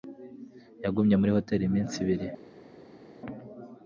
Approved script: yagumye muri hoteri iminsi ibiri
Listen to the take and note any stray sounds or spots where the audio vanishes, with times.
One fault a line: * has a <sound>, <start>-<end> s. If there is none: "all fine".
all fine